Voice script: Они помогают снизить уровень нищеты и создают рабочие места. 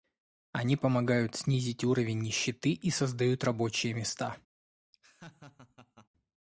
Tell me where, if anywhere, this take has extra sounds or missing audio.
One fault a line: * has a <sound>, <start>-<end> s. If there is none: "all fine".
* has a laugh, 4.9-6.1 s